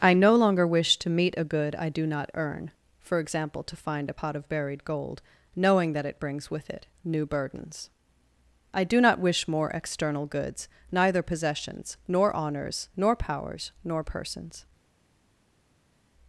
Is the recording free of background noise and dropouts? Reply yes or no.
yes